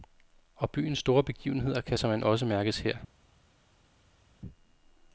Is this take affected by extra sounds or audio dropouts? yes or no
no